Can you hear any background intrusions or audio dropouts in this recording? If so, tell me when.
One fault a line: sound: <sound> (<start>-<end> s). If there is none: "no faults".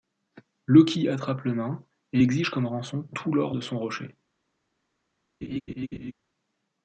sound: laugh (5.4-6.1 s)